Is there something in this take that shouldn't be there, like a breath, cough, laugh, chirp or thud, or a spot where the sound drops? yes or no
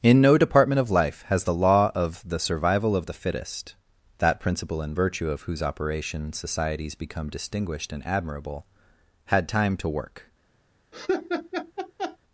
yes